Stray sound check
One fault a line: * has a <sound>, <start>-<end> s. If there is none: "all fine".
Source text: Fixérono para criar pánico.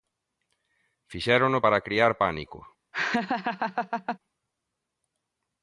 * has a laugh, 2.9-4.2 s